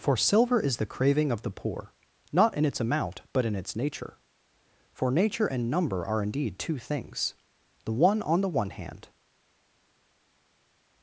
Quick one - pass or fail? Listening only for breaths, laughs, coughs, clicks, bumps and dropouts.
pass